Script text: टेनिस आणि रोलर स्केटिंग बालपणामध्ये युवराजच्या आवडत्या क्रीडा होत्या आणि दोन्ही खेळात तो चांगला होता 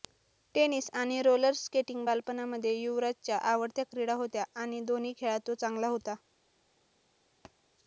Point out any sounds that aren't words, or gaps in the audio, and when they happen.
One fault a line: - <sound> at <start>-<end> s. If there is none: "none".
- thud at 7.4-7.6 s